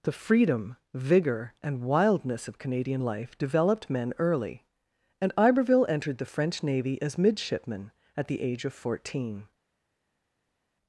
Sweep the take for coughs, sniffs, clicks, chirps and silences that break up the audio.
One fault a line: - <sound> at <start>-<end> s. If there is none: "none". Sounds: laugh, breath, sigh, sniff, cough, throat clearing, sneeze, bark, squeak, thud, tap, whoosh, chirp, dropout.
none